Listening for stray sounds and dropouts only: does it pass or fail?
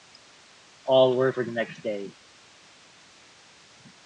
pass